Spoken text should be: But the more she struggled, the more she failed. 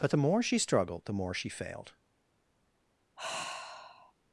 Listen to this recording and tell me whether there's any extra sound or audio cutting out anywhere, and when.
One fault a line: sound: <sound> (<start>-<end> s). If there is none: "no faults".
sound: sigh (3.2-4.1 s)